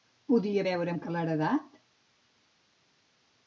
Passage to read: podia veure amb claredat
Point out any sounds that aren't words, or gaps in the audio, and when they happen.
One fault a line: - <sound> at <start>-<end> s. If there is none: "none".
none